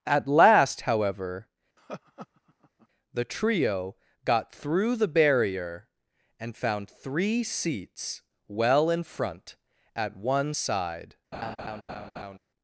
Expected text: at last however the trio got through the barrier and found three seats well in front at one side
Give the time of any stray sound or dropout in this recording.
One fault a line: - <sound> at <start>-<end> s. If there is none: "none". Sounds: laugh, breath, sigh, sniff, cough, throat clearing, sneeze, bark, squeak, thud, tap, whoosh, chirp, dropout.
- laugh at 1.8-2.9 s
- laugh at 11.3-12.4 s